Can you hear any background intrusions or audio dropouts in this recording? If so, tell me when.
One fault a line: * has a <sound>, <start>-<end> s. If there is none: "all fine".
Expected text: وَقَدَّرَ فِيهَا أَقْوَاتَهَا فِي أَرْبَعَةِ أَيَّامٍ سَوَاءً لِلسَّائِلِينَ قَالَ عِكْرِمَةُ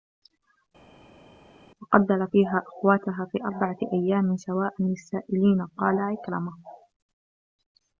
all fine